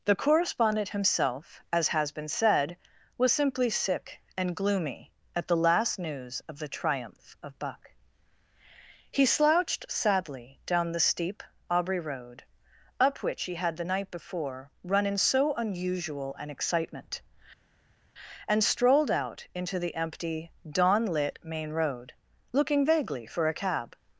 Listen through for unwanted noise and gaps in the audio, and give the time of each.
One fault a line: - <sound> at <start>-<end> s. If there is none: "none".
none